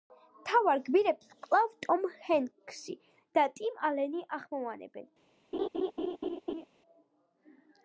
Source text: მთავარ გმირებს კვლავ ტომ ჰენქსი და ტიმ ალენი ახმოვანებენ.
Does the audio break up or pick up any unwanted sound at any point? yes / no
yes